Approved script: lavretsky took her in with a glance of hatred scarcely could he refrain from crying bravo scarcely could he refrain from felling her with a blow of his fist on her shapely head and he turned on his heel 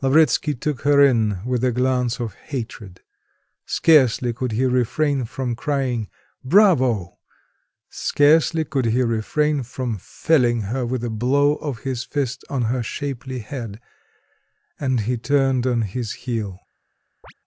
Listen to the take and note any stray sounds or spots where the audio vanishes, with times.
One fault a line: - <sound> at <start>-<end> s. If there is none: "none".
- chirp at 17.2-17.3 s